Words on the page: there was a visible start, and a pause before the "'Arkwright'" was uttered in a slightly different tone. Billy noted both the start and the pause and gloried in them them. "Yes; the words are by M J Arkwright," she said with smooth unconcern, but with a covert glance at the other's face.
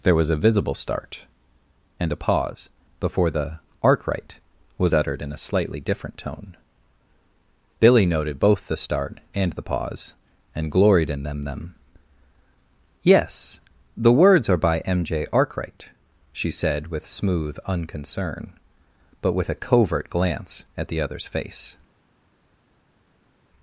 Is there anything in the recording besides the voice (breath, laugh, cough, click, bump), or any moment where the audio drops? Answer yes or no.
no